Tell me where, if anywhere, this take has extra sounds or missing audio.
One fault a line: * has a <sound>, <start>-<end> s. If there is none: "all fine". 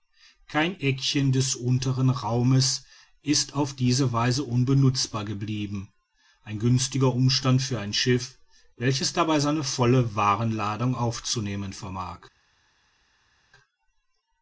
all fine